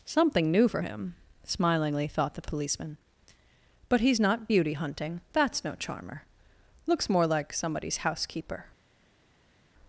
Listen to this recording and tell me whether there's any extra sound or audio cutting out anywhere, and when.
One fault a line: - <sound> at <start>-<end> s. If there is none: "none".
none